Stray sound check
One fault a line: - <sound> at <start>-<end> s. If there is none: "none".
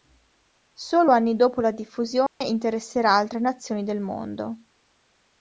- dropout at 2.3-2.4 s